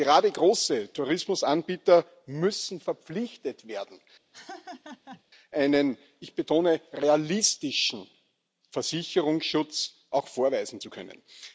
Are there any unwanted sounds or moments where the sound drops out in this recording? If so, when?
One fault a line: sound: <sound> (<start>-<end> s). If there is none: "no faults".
sound: laugh (4.3-5.2 s)